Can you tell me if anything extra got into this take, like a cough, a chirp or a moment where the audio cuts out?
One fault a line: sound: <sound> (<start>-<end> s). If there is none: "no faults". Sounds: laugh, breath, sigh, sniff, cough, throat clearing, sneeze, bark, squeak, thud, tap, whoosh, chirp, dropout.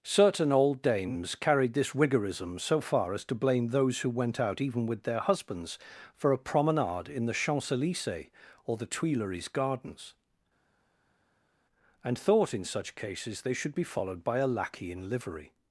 no faults